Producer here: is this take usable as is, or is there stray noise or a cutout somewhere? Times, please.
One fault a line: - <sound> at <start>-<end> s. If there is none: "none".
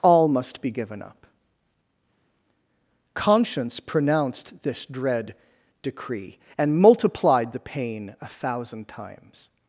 none